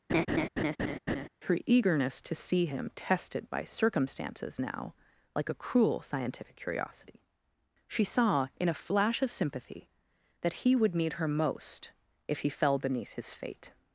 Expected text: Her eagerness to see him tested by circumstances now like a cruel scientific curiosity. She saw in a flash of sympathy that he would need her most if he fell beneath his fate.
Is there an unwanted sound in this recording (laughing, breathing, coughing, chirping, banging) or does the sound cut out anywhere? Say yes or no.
yes